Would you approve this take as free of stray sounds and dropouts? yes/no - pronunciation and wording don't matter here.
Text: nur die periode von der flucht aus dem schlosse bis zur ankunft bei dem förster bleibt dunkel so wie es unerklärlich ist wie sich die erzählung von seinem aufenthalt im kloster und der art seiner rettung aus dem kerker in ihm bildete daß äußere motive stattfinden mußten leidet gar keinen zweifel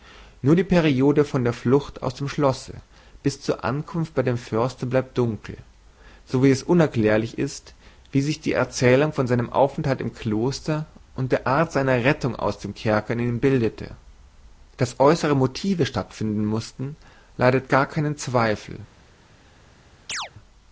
no